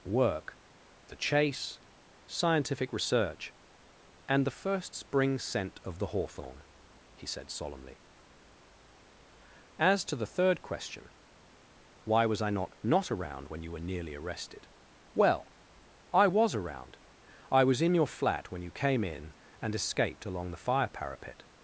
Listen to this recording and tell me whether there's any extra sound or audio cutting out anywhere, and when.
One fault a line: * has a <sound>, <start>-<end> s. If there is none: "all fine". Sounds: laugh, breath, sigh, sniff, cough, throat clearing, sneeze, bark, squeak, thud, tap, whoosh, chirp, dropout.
all fine